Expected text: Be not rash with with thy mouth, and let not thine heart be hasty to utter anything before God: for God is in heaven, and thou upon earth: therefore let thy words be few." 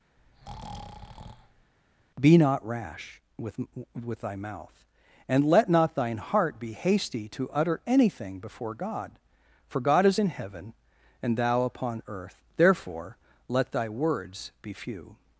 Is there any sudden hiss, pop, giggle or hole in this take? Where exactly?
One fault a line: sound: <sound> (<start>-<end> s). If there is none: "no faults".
sound: breath (0.2-1.7 s)